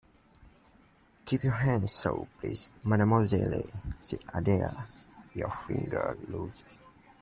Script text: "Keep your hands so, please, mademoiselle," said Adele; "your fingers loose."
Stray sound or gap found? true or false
false